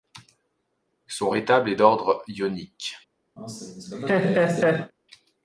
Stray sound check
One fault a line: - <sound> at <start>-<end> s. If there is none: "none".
- laugh at 3.4-4.9 s